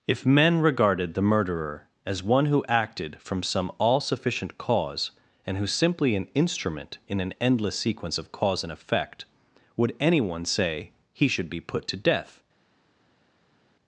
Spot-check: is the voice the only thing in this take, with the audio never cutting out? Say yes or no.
yes